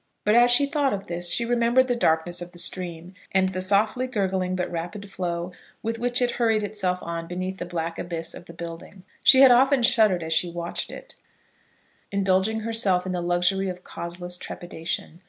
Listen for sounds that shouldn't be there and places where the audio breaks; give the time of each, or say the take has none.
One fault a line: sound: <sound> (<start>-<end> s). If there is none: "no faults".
no faults